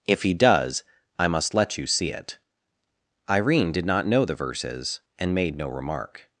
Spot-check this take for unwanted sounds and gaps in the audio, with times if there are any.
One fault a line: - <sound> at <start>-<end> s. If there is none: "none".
none